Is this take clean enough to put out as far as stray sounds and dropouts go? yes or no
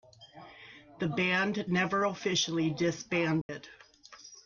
no